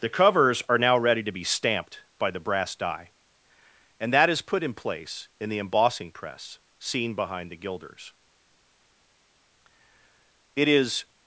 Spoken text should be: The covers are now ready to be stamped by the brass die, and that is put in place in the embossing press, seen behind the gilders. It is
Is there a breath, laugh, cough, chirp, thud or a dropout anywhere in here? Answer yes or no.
no